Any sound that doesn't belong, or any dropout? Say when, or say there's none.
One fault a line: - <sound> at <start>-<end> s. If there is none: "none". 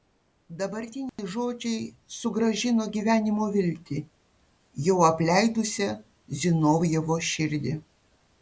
- dropout at 1.1-1.2 s